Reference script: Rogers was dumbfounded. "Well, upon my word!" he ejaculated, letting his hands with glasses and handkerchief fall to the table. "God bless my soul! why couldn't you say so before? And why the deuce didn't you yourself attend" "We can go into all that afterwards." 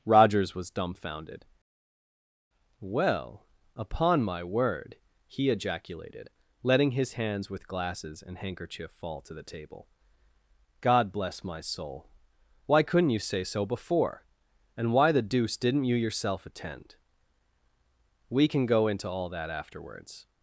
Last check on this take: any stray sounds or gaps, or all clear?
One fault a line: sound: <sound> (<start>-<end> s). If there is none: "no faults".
no faults